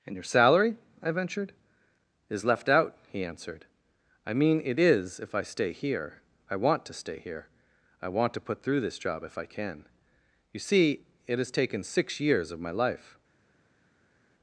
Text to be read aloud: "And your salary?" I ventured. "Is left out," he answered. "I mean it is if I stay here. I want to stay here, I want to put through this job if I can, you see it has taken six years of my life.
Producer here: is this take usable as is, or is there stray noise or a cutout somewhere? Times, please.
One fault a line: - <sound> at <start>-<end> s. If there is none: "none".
none